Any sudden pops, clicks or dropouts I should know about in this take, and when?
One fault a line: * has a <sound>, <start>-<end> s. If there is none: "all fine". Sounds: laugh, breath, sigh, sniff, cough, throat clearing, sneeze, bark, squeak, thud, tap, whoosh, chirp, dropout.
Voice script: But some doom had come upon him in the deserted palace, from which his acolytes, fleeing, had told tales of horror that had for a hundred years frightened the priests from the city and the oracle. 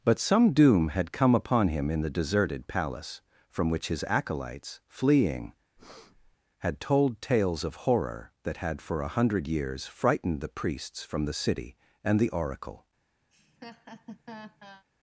* has a breath, 5.8-6.4 s
* has a laugh, 13.3-14.8 s